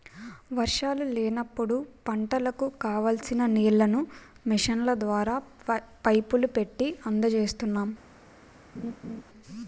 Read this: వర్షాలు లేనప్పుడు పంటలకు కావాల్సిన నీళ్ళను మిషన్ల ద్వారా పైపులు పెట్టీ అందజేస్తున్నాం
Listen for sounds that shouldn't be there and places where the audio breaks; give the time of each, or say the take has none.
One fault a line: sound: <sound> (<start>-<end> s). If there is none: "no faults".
sound: laugh (8.7-9.2 s)